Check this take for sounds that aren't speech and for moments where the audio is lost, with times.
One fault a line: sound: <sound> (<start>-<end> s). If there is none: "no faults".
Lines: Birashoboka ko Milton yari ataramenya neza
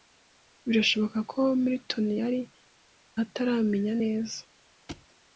sound: thud (4.9-5.1 s)